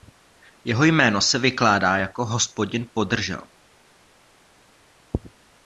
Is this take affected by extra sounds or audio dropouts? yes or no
no